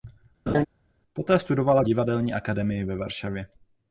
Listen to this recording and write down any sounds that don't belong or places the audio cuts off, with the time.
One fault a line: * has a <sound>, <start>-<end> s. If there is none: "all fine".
* has a laugh, 0.5-0.7 s